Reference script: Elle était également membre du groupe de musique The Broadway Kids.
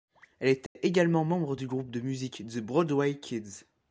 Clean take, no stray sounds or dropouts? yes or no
no